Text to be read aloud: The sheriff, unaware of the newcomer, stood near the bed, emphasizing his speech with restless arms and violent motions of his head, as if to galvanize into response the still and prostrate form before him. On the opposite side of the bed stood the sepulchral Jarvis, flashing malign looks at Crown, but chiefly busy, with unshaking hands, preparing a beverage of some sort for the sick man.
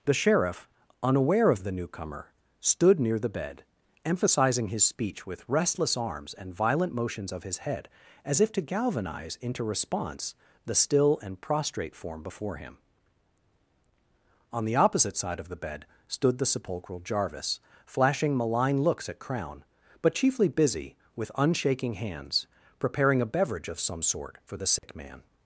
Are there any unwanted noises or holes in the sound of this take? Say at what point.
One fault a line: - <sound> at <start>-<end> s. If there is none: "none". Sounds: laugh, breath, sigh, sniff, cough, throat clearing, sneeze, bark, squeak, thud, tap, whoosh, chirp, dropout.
- dropout at 24.8-24.8 s